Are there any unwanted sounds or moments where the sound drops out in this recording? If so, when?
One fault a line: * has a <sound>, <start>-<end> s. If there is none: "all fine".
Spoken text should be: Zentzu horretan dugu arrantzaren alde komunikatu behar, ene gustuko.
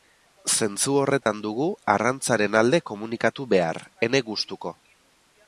* has a dropout, 1.2-1.3 s